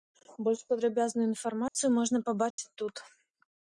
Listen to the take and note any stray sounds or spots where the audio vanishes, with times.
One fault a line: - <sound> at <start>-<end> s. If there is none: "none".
- dropout at 1.7-1.7 s
- dropout at 2.5-2.6 s